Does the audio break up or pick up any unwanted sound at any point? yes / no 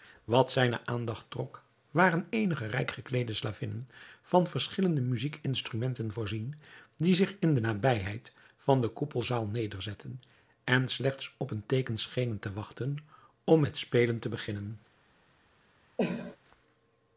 yes